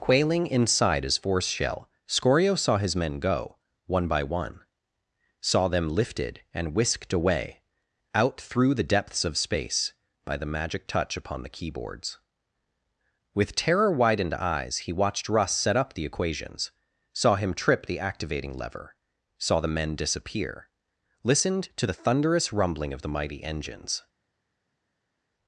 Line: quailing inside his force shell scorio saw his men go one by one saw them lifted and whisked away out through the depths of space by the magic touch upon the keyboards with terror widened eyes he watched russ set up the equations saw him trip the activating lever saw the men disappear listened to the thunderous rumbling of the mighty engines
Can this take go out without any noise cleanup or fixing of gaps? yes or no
yes